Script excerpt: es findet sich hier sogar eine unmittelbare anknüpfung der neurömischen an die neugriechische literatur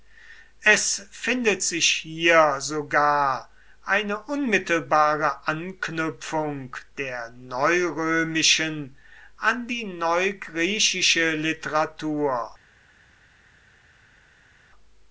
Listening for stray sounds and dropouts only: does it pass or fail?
pass